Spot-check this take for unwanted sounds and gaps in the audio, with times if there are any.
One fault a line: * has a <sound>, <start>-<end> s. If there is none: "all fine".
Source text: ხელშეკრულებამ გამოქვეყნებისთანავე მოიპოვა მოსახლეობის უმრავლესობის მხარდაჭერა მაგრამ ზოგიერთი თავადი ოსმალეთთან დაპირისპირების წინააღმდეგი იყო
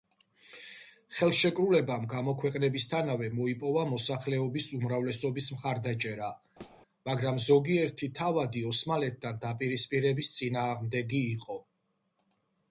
* has a thud, 6.6-6.8 s